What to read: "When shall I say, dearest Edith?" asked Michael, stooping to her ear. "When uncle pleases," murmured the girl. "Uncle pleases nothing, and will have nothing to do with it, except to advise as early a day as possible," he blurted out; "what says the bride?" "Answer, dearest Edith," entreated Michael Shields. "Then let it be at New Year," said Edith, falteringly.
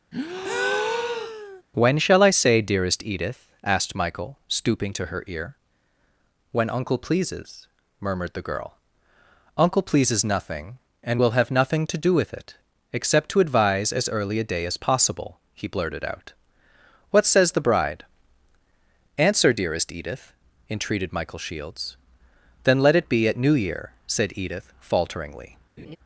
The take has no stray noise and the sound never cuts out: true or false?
false